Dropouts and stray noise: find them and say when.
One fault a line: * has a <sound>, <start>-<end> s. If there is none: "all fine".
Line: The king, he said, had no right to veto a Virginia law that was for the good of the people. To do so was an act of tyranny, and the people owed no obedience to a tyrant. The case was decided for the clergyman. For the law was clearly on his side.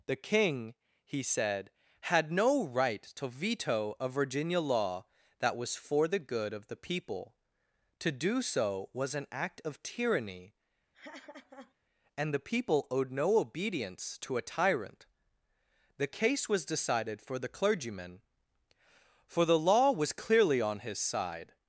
* has a laugh, 10.9-11.7 s